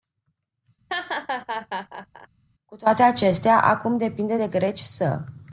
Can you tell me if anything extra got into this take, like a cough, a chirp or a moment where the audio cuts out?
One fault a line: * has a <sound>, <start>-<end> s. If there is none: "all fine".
* has a laugh, 0.9-2.3 s